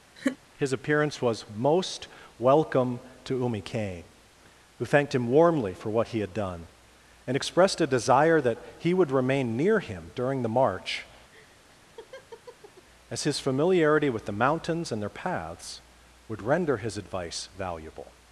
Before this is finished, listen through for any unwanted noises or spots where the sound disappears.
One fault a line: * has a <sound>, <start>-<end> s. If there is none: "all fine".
* has a laugh, 0.2-0.4 s
* has a laugh, 11.3-12.9 s